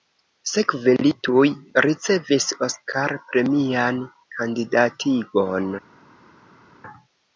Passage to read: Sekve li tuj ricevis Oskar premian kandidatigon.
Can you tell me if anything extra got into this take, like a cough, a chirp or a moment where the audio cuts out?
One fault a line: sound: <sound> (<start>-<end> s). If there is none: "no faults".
no faults